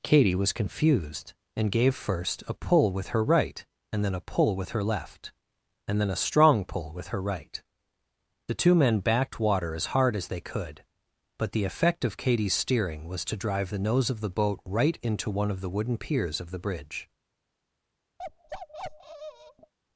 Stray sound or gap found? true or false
true